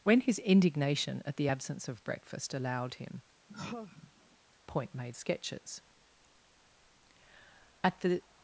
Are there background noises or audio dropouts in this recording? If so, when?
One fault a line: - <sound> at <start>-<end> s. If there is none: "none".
- sigh at 3.5-4.4 s